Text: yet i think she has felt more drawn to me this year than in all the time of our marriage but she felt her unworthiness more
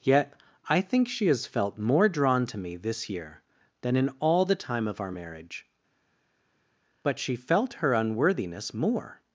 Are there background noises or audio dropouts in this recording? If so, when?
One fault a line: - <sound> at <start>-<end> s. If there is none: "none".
none